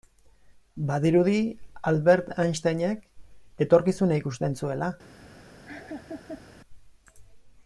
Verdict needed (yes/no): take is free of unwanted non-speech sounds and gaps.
no